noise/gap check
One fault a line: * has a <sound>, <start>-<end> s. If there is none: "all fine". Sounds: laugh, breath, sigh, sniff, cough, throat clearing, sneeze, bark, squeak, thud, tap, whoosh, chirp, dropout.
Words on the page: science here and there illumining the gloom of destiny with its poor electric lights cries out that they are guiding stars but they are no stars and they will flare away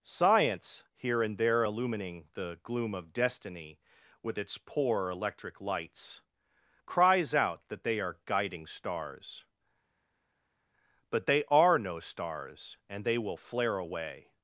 all fine